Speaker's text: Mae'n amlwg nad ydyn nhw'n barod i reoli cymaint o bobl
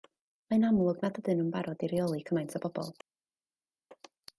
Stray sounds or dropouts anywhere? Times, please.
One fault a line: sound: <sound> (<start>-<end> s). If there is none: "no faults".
no faults